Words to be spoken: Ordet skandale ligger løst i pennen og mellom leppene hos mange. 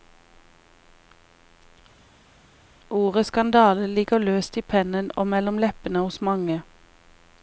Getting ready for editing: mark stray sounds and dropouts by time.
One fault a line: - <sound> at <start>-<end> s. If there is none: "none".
none